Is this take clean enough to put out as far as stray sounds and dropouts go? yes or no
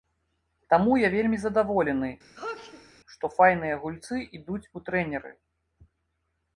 no